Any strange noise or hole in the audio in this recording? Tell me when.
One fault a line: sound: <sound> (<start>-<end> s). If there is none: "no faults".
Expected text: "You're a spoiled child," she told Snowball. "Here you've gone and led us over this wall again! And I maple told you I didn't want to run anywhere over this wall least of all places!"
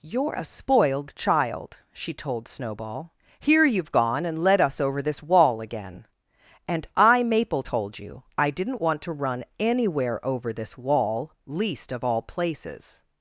no faults